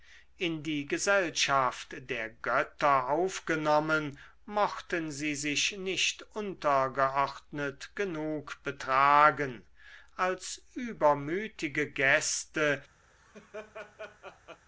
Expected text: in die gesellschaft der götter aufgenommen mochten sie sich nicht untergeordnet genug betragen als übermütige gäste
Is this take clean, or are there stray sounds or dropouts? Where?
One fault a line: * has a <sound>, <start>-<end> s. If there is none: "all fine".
* has a laugh, 13.1-14.6 s